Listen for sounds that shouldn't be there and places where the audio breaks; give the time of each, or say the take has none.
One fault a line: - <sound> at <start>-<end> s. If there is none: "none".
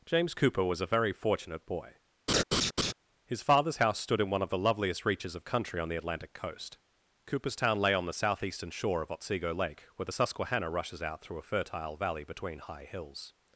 - laugh at 2.3-2.9 s